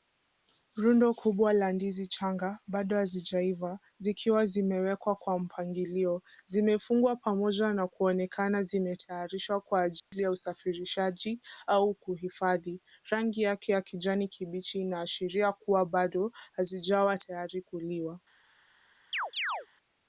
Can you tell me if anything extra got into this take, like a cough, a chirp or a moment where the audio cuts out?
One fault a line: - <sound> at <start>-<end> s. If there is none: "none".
- dropout at 10.0-10.1 s
- chirp at 19.1-19.7 s